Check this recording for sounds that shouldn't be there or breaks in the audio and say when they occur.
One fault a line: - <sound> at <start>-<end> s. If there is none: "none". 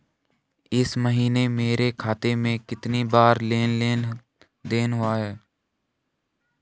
none